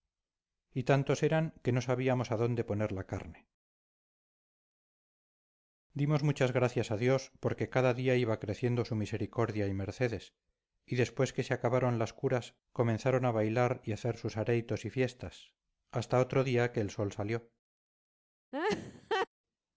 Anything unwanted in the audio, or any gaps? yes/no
yes